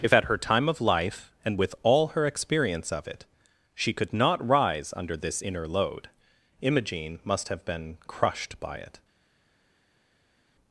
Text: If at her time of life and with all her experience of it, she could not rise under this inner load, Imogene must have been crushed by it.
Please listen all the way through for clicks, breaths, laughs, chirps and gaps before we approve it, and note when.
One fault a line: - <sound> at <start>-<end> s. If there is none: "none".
none